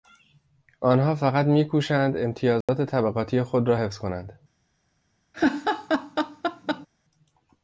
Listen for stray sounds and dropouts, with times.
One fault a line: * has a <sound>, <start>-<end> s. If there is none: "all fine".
* has a dropout, 2.6-2.7 s
* has a laugh, 5.3-6.9 s